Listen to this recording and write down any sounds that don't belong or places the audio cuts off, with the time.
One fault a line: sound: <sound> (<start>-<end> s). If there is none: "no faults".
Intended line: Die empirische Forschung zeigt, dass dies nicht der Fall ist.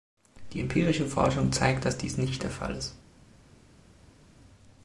no faults